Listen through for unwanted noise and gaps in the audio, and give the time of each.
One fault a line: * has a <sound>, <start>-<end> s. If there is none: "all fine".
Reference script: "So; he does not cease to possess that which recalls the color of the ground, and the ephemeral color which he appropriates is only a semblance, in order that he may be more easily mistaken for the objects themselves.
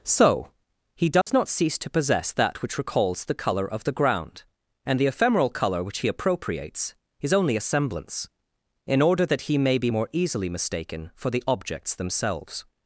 * has a dropout, 1.2-1.3 s